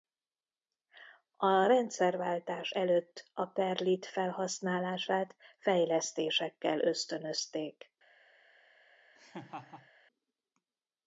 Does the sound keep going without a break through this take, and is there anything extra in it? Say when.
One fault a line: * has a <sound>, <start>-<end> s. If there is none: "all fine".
* has a laugh, 9.1-9.9 s